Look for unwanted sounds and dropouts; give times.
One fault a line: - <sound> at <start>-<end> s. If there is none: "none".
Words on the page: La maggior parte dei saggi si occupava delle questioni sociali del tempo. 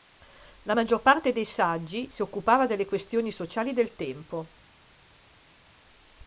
none